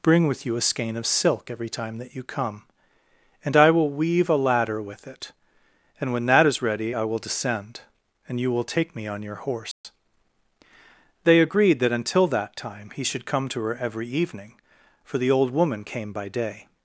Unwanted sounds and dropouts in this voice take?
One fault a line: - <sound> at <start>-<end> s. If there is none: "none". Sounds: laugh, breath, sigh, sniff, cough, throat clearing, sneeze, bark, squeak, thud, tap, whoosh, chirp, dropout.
- dropout at 9.7-9.8 s